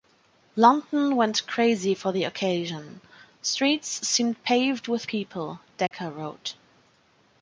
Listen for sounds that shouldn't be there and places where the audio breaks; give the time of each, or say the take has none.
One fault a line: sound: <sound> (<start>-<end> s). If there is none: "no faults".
sound: dropout (5.9-5.9 s)